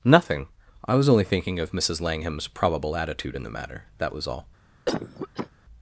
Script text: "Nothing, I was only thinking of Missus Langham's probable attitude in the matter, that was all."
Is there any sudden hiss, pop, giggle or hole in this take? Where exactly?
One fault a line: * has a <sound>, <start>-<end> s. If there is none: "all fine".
* has a cough, 4.9-5.5 s